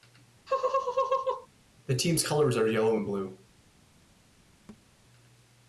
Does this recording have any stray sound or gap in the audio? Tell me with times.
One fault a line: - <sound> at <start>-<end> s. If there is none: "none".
- laugh at 0.5-1.5 s
- thud at 4.7-4.9 s